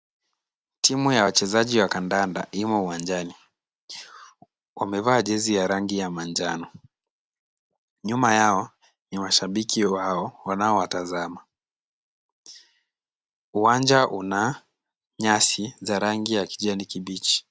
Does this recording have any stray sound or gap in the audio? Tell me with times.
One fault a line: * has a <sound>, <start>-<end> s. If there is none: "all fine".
all fine